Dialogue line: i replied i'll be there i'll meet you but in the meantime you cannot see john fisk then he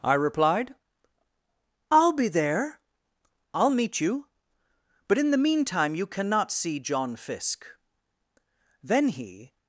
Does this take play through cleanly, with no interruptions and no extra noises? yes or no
yes